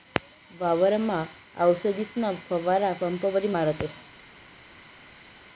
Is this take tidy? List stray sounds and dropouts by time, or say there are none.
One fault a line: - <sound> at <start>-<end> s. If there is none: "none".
none